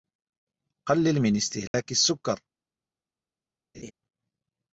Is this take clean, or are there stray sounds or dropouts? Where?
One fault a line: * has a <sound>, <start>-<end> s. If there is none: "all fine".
* has a dropout, 1.7-1.7 s
* has a laugh, 3.7-3.9 s